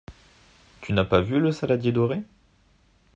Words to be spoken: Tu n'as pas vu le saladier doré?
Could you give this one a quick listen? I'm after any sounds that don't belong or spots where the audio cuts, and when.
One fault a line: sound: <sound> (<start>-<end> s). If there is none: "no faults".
no faults